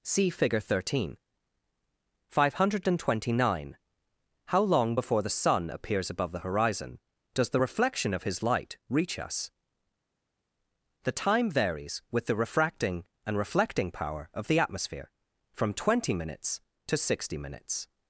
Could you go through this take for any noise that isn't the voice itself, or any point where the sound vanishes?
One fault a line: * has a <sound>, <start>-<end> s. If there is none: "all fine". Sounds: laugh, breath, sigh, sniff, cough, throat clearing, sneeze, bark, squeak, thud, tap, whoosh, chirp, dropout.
all fine